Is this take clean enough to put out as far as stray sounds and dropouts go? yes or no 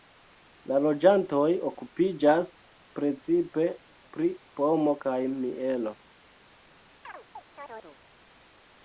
no